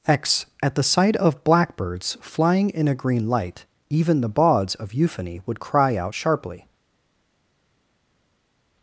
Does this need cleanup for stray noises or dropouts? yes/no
no